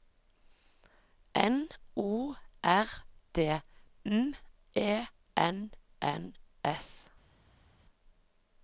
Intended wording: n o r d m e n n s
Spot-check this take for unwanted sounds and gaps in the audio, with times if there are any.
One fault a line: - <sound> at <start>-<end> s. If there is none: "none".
none